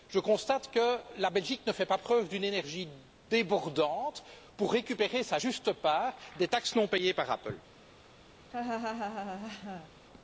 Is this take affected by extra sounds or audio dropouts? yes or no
yes